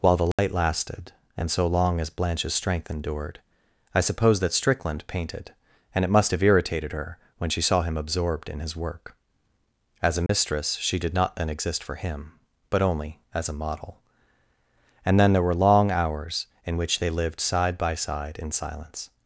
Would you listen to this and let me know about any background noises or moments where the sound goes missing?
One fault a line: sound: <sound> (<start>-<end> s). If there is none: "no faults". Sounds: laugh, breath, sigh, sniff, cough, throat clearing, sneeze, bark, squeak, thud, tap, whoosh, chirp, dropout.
sound: dropout (0.3-0.4 s)
sound: dropout (10.3-10.3 s)